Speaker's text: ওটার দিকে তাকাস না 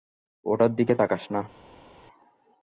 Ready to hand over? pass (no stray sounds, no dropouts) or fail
pass